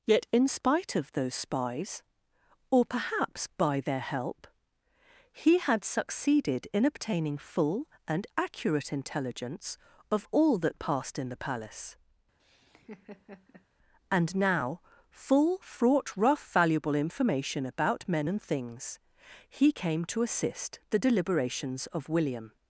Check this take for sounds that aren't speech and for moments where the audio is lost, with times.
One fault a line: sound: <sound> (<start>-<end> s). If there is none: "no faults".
sound: laugh (12.4-13.7 s)